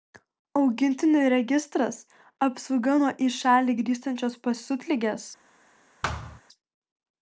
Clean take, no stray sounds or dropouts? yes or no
no